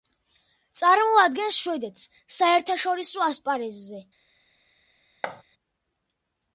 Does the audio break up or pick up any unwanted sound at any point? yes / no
yes